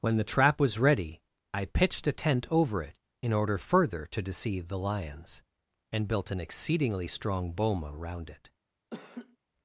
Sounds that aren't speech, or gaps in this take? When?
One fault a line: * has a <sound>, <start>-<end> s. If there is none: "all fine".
* has a laugh, 8.9-9.4 s